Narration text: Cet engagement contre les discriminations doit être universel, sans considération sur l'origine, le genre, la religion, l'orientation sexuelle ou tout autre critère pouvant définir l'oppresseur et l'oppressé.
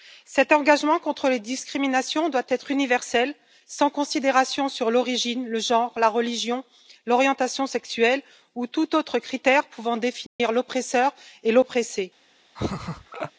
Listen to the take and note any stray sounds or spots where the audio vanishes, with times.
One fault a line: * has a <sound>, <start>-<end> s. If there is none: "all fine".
* has a dropout, 10.3-10.4 s
* has a laugh, 12.6-13.3 s